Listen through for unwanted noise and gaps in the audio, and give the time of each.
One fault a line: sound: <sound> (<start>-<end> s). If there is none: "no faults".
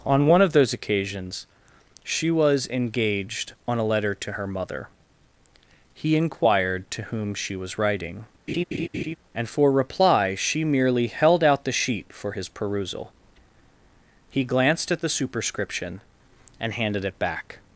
sound: laugh (8.5-9.2 s)